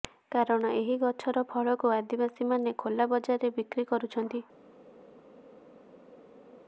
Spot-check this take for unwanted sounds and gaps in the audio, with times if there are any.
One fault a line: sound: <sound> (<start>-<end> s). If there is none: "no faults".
no faults